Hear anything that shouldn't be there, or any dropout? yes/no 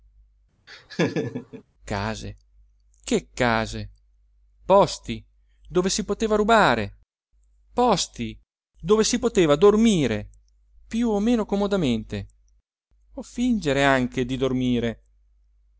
yes